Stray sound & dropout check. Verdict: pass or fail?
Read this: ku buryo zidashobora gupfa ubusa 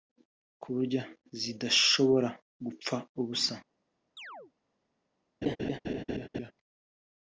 fail